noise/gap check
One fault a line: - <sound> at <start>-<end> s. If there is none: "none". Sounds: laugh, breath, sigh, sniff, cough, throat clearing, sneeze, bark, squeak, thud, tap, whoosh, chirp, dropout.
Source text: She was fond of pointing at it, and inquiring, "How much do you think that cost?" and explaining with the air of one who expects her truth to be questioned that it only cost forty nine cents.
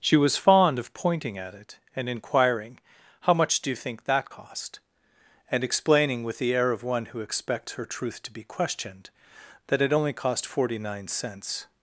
none